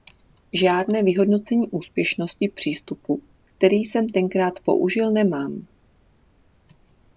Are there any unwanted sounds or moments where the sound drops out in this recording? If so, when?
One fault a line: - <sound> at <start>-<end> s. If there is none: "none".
none